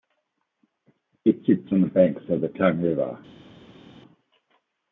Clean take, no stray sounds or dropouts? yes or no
yes